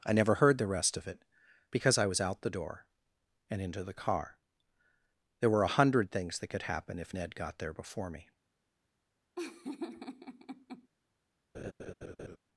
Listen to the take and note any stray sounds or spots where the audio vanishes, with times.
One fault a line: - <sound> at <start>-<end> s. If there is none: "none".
- laugh at 9.4-10.9 s
- laugh at 11.5-12.4 s